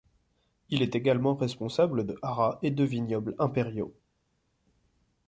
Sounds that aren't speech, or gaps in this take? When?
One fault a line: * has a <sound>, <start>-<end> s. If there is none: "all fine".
all fine